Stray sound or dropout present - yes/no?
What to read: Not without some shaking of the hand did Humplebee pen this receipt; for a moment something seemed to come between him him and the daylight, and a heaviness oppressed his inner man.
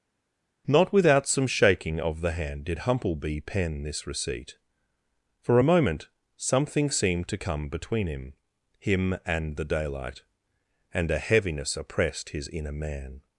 no